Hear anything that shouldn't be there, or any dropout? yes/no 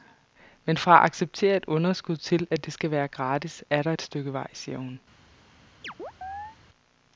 yes